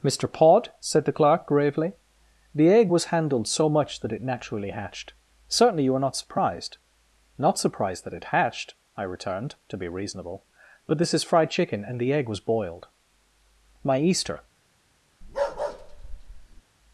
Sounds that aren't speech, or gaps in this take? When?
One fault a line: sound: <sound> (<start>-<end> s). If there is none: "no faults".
sound: bark (15.2-16.6 s)